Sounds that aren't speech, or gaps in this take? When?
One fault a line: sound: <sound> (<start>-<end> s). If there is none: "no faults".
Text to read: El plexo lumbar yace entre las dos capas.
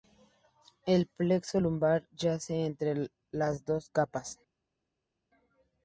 no faults